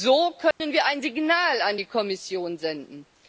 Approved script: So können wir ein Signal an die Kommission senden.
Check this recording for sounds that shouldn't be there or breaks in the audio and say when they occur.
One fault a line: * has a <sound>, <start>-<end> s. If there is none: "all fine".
* has a dropout, 0.5-0.6 s